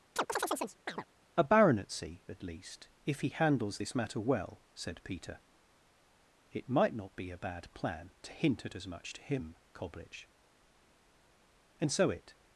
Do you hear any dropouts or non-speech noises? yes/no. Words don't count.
yes